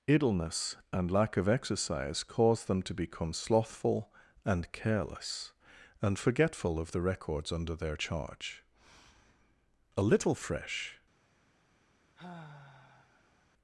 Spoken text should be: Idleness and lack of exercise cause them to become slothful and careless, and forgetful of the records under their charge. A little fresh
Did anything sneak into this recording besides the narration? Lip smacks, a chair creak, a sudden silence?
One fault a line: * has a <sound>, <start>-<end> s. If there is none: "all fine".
* has a sigh, 12.1-13.5 s